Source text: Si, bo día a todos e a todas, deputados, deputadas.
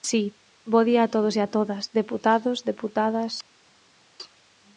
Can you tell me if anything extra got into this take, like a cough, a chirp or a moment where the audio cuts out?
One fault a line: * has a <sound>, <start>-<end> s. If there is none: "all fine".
all fine